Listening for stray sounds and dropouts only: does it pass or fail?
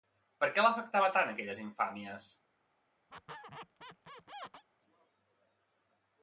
fail